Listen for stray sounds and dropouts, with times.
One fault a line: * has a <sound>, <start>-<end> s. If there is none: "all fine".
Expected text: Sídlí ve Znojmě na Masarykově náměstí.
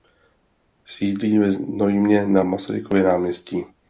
all fine